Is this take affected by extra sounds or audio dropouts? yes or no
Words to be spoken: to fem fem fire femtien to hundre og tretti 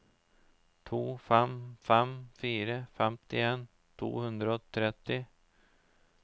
no